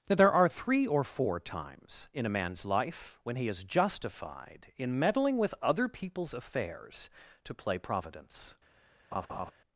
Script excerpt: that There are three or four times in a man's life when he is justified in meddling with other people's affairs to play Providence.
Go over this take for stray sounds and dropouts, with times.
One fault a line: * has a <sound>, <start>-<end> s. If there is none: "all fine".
* has a laugh, 9.1-9.5 s